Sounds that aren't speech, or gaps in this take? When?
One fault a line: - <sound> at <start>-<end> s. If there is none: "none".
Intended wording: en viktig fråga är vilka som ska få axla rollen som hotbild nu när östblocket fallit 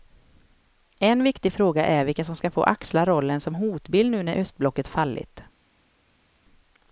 none